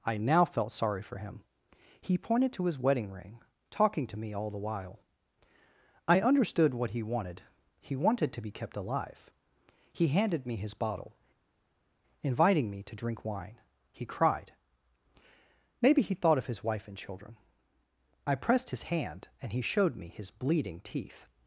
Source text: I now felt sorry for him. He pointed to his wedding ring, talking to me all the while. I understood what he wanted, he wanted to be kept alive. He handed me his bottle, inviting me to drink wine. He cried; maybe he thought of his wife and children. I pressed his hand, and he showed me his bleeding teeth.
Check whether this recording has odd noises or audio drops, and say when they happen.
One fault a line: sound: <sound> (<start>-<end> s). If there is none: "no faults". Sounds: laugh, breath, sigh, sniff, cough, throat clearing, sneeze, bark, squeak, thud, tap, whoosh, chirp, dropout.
no faults